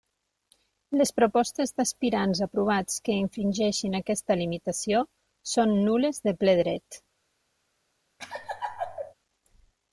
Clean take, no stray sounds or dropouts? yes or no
no